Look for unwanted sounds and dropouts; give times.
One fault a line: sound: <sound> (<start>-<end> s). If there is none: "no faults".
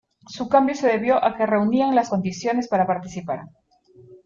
no faults